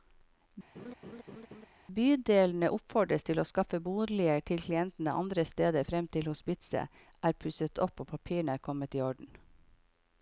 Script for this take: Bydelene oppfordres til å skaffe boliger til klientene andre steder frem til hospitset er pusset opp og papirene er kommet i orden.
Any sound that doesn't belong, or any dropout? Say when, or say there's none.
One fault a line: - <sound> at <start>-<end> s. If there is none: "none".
- laugh at 0.8-1.7 s